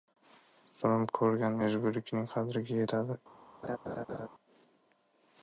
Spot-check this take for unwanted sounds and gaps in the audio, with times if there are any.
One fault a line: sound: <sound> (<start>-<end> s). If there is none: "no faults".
sound: laugh (3.6-4.3 s)